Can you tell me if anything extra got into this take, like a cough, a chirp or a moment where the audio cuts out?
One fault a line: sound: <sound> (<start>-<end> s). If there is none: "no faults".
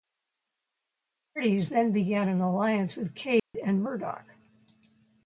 sound: dropout (3.4-3.5 s)